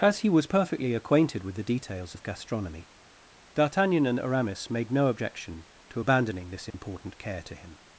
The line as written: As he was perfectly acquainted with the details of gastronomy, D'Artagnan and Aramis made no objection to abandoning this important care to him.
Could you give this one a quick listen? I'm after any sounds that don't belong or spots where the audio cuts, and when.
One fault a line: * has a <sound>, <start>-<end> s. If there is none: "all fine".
* has a dropout, 6.7-6.7 s